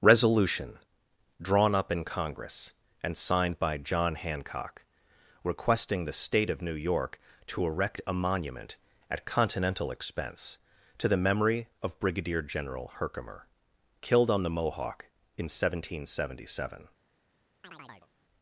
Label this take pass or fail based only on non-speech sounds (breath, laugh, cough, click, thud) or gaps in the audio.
fail